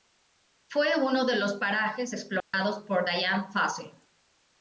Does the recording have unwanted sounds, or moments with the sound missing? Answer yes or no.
yes